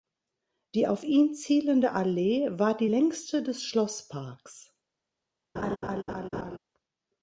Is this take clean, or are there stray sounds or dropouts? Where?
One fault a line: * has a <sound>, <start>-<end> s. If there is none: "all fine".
* has a laugh, 5.6-6.6 s